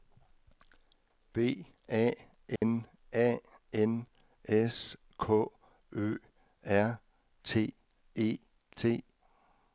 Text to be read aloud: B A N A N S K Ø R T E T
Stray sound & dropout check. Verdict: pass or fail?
fail